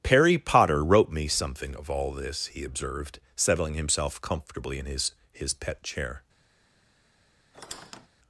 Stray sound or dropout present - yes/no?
yes